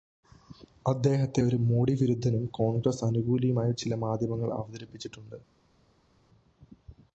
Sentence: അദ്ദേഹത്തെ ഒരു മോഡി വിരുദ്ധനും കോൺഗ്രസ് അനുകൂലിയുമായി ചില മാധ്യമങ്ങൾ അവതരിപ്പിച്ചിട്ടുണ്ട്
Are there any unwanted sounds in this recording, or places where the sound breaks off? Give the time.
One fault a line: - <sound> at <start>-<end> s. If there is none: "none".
none